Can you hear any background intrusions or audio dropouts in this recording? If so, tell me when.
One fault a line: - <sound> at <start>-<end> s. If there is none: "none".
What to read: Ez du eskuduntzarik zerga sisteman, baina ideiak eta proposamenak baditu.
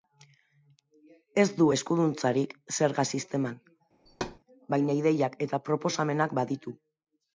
- thud at 4.1-4.4 s